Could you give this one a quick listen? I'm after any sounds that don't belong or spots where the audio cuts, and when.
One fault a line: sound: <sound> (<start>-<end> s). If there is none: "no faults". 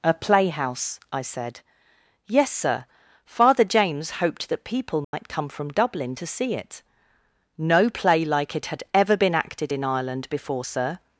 sound: dropout (5.0-5.1 s)